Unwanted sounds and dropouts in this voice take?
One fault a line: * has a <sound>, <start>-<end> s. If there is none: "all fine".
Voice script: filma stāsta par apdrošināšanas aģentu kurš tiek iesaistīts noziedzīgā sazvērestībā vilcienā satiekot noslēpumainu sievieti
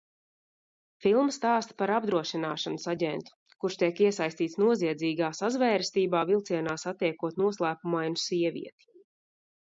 all fine